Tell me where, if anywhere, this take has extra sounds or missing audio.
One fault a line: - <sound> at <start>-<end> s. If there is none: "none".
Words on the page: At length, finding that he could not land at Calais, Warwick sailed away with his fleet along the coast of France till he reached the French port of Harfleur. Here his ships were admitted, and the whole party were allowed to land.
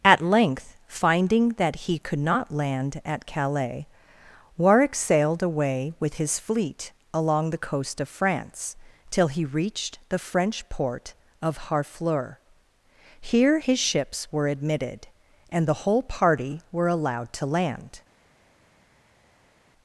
none